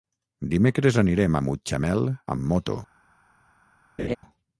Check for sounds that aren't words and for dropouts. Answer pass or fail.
fail